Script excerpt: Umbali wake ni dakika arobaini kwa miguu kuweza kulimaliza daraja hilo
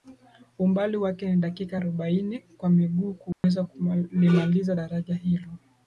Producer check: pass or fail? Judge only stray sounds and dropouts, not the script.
fail